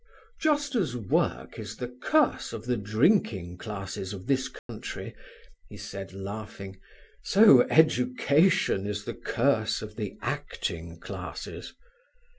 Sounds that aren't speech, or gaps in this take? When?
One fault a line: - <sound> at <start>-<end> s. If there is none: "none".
- dropout at 4.6-4.7 s